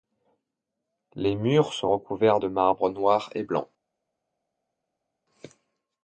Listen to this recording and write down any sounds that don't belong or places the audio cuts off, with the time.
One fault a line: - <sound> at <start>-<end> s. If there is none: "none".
none